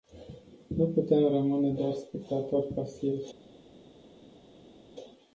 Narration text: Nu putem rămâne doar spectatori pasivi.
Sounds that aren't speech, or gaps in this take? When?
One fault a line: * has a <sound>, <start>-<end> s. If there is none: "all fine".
all fine